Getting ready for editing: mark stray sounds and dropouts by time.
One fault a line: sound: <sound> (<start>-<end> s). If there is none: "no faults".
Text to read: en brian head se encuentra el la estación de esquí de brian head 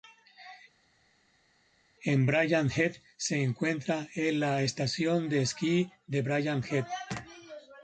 no faults